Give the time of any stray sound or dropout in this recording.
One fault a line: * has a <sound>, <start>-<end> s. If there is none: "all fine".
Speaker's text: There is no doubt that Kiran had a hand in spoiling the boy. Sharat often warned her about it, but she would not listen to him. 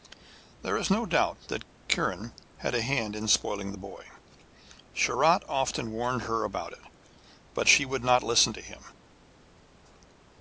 all fine